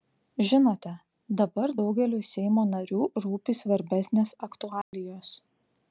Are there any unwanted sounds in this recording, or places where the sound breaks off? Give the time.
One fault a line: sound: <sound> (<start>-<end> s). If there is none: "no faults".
sound: dropout (4.8-4.9 s)